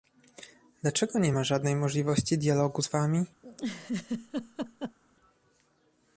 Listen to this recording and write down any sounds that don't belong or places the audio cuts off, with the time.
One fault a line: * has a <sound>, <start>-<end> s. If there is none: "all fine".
* has a laugh, 3.4-5.0 s